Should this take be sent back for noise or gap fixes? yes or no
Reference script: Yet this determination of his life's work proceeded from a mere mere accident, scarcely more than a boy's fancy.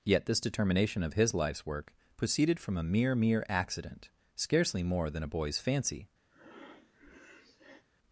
yes